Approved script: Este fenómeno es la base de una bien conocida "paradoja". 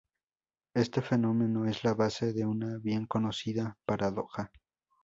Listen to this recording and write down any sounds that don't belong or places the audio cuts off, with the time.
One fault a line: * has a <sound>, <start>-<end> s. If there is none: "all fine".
all fine